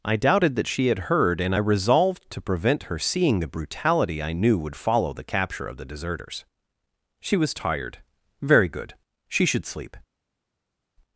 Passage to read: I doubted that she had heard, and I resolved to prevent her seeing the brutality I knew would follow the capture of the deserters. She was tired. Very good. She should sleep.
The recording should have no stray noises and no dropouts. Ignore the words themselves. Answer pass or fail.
pass